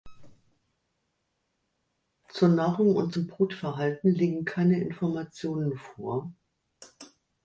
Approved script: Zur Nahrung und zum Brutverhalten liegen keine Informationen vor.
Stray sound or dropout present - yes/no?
no